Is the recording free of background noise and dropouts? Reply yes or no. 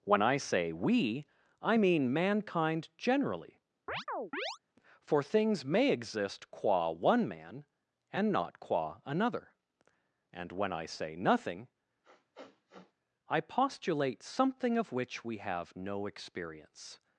no